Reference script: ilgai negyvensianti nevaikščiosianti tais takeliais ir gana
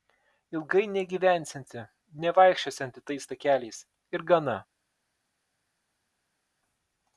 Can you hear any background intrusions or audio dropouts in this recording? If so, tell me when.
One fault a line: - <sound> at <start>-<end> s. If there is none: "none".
none